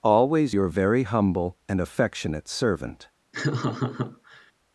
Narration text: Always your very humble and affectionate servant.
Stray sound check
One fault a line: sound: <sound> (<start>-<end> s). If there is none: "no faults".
sound: laugh (3.3-4.5 s)